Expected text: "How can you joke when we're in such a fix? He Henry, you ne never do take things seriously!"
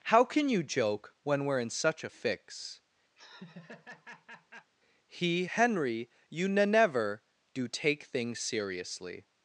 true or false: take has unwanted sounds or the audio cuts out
true